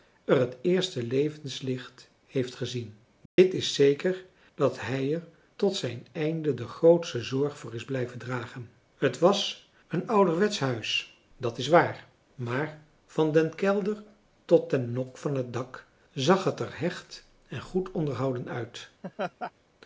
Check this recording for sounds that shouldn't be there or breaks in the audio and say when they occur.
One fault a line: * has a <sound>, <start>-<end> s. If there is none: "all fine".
* has a dropout, 3.3-3.4 s
* has a laugh, 19.0-19.5 s